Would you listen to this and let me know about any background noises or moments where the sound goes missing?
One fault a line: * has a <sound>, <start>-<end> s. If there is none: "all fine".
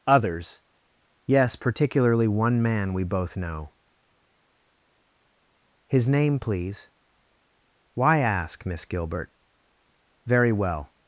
all fine